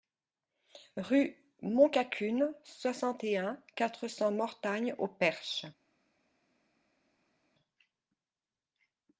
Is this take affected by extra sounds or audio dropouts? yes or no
no